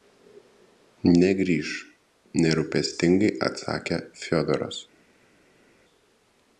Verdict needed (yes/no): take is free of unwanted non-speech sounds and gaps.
yes